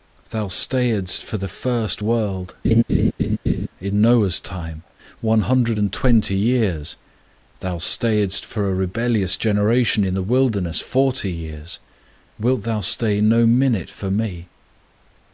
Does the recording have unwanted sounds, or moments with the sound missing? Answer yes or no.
yes